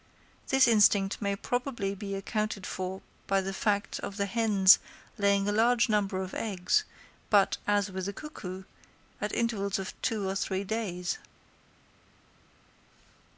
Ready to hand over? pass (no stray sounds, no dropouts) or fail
pass